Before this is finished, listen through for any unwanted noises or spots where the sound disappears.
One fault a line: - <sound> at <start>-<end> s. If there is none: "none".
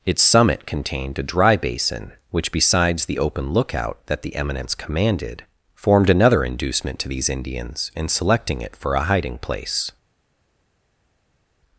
none